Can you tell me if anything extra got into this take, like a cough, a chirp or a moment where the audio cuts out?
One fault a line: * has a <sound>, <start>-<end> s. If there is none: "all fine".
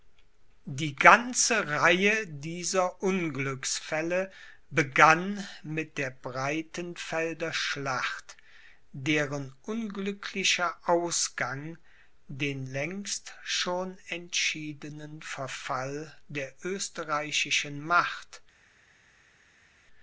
all fine